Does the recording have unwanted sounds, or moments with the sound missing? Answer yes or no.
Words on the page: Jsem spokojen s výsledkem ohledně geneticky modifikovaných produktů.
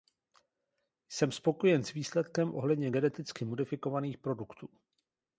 no